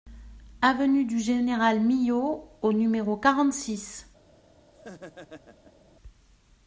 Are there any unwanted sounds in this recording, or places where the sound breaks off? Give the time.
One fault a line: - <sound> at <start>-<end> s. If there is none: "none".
- laugh at 4.7-5.9 s